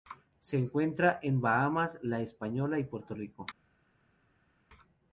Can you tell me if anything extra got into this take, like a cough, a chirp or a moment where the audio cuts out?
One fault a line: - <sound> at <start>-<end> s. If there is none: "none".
none